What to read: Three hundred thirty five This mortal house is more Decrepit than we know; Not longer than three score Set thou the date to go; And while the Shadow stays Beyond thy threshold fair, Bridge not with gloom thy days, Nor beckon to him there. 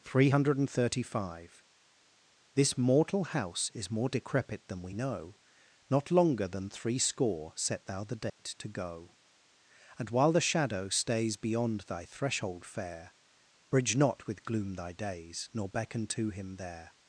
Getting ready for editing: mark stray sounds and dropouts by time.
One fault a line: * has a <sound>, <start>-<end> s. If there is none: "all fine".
* has a dropout, 8.3-8.4 s